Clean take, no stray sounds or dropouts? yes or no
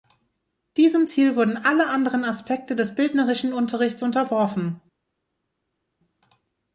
yes